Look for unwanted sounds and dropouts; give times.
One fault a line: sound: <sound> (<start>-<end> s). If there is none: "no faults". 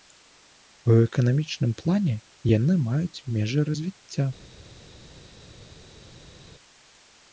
no faults